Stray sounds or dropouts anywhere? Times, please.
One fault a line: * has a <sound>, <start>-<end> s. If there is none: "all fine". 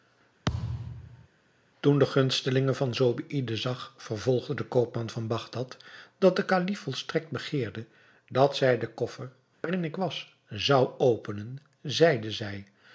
* has a thud, 0.5-1.3 s
* has a dropout, 9.5-9.6 s